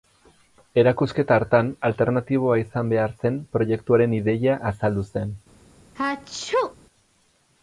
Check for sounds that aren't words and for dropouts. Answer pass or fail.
fail